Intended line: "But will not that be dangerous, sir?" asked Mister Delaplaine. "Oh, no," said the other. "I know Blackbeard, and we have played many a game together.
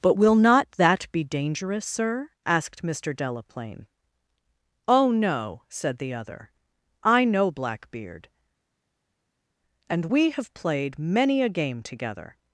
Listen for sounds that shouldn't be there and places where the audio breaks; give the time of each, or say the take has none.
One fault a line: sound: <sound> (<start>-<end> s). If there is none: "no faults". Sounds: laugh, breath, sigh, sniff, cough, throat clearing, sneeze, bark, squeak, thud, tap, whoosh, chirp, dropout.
no faults